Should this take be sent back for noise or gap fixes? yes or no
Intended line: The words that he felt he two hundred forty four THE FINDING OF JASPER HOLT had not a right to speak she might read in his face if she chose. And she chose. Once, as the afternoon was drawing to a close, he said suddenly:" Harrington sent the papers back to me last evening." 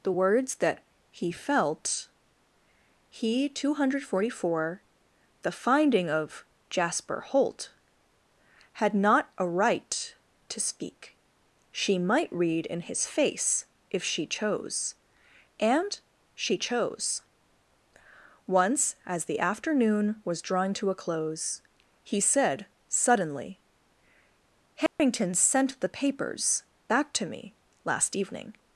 yes